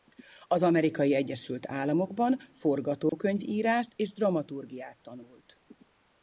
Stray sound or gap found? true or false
true